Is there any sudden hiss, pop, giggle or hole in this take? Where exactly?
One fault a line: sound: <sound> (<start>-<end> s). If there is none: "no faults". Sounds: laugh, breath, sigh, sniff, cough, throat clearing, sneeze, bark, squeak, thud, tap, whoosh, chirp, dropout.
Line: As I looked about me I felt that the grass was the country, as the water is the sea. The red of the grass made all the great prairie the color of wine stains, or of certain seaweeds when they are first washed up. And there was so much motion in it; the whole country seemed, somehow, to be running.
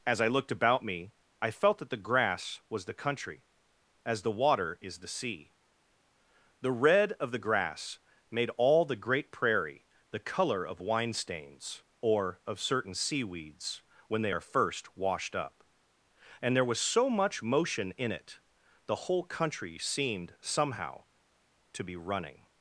no faults